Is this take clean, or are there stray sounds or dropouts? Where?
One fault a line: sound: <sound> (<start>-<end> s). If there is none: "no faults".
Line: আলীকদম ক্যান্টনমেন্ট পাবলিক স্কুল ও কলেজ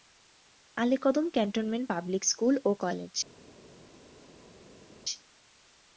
no faults